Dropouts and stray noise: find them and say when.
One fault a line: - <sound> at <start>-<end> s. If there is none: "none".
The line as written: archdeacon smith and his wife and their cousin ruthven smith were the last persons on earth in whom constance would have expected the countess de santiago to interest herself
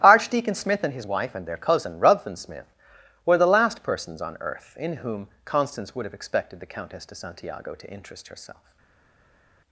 none